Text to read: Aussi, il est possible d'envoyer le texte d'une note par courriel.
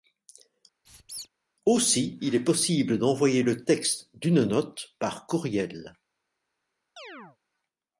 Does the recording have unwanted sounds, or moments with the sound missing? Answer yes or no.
yes